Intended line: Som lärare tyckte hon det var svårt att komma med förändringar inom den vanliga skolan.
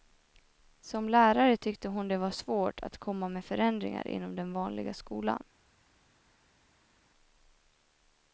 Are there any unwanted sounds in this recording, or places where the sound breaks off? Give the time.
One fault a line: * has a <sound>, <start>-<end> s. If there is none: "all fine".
all fine